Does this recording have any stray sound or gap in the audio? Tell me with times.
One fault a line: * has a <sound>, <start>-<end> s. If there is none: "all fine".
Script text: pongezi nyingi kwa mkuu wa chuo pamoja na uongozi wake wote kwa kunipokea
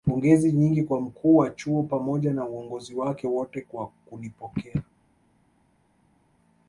all fine